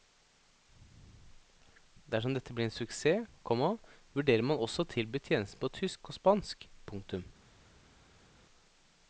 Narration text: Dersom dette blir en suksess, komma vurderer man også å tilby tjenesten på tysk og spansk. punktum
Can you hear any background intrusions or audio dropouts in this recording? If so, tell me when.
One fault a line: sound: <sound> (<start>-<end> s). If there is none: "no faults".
no faults